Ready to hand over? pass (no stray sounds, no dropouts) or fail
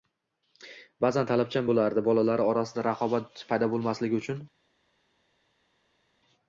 pass